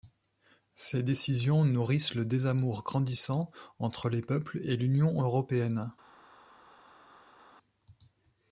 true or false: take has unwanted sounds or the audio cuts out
false